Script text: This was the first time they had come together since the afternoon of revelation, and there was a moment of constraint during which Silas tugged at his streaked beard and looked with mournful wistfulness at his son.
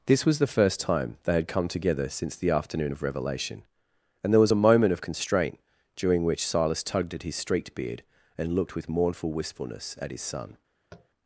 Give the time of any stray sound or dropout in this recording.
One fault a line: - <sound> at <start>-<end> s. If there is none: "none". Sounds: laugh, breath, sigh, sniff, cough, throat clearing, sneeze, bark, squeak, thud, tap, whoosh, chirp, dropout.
- tap at 10.9-11.1 s